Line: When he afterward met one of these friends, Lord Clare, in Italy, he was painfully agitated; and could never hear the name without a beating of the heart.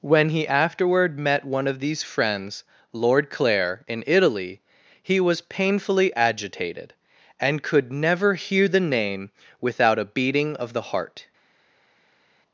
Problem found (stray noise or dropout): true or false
false